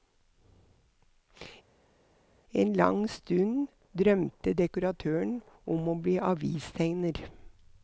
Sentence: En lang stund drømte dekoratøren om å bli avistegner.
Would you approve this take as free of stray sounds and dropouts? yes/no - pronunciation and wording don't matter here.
yes